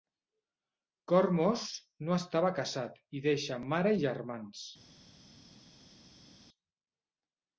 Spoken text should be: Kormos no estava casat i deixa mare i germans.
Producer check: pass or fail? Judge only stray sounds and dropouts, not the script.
pass